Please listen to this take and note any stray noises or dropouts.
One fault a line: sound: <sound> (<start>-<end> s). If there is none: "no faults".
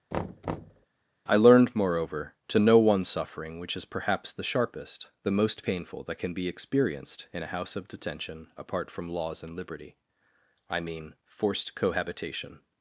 sound: thud (0.1-0.9 s)